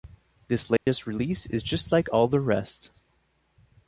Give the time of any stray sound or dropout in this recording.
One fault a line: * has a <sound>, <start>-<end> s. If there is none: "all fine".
* has a dropout, 0.8-0.9 s